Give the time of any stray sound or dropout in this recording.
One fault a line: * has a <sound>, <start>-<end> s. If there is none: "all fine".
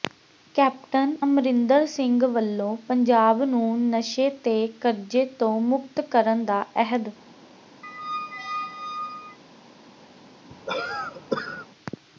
* has a squeak, 7.8-9.4 s
* has a cough, 10.5-11.7 s